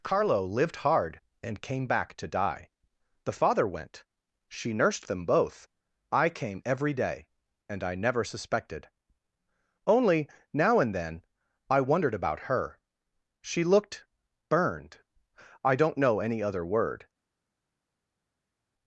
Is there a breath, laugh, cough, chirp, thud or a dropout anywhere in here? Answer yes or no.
no